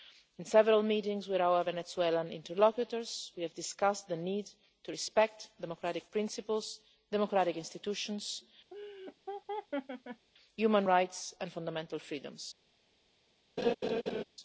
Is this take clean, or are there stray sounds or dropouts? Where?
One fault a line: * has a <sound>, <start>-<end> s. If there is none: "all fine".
* has a laugh, 8.7-10.3 s
* has a laugh, 13.6-14.2 s